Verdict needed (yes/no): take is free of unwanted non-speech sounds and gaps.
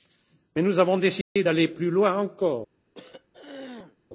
no